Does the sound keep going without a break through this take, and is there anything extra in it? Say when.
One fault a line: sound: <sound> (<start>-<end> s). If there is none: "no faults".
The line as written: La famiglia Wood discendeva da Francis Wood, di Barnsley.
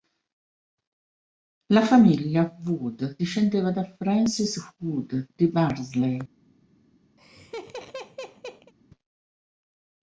sound: laugh (7.2-8.7 s)